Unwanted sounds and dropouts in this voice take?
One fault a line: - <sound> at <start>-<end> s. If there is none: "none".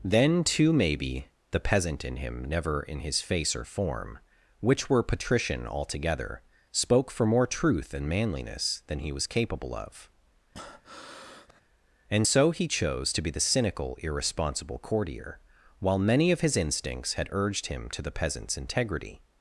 - breath at 10.5-11.6 s